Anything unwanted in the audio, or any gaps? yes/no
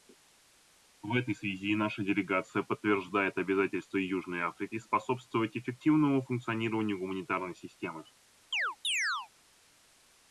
yes